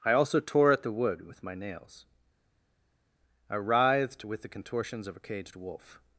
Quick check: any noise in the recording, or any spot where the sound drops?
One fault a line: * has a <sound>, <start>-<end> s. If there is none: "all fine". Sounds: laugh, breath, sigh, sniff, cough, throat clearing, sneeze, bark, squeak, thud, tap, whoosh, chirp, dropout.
all fine